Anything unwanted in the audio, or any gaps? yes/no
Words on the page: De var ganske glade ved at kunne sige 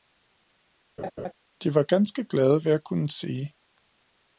yes